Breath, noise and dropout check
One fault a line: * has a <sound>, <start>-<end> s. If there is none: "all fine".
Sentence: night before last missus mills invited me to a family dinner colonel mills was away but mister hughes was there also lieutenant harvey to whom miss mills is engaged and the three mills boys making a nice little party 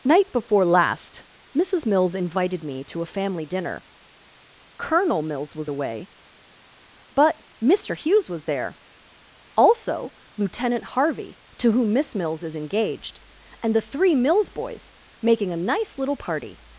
all fine